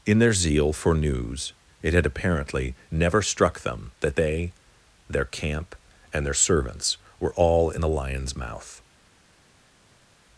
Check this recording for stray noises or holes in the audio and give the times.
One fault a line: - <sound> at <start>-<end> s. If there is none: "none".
none